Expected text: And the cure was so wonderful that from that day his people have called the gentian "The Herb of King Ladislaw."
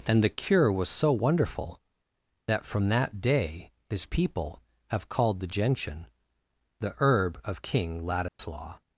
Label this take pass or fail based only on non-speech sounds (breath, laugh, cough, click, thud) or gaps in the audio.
fail